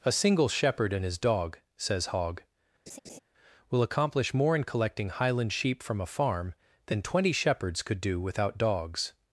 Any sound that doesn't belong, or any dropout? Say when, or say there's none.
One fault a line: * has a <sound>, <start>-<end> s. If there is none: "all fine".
* has a laugh, 2.9-3.2 s